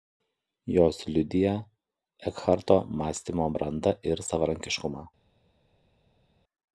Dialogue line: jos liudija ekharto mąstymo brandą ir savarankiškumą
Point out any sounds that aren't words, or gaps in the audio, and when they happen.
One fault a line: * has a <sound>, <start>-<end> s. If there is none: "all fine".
all fine